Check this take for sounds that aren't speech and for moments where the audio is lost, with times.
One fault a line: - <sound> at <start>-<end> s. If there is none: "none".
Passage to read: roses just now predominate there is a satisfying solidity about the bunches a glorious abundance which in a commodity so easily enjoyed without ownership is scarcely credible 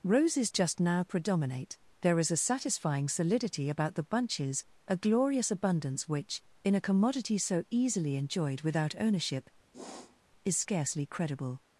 - sniff at 9.7-10.2 s